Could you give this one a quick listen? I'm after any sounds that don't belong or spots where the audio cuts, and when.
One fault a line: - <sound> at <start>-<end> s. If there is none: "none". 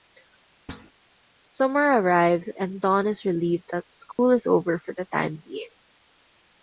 - thud at 0.7-0.9 s
- dropout at 4.1-4.2 s